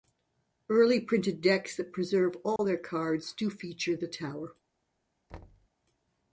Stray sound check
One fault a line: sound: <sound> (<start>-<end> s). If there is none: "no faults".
sound: dropout (2.6-2.6 s)
sound: thud (5.3-5.7 s)